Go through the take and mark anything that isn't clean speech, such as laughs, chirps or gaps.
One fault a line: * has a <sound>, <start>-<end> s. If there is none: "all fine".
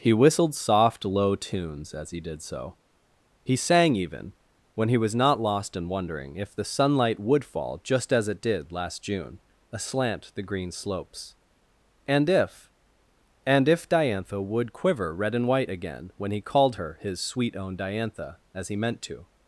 all fine